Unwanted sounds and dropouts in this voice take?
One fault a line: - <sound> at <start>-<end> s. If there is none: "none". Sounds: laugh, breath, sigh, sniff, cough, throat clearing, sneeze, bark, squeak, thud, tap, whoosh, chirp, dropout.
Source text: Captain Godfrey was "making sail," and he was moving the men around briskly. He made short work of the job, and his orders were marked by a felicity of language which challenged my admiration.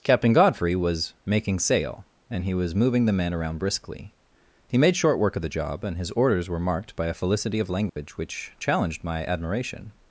- dropout at 7.9-8.0 s